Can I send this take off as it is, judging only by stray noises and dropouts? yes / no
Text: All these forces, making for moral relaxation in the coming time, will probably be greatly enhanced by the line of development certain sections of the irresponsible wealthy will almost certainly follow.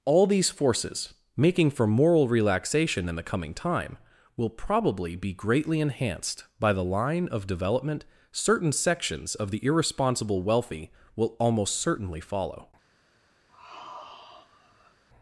no